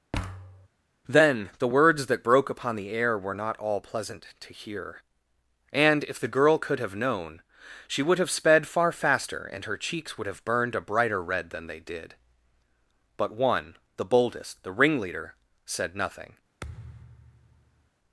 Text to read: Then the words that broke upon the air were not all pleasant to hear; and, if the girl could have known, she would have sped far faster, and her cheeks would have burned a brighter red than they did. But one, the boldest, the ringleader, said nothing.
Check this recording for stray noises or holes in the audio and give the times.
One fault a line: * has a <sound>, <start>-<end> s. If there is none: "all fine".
* has a thud, 0.1-0.7 s
* has a thud, 16.6-17.9 s